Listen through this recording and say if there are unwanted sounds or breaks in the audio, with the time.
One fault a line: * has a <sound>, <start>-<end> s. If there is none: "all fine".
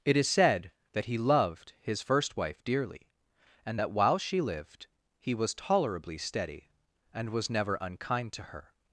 all fine